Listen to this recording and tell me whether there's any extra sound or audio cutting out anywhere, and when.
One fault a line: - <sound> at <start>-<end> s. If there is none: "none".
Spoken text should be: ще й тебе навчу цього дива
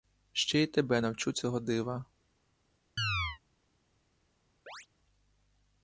- chirp at 3.0-3.4 s
- chirp at 4.7-4.9 s